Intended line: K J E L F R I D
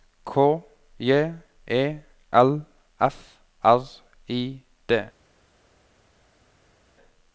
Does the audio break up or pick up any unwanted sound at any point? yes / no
no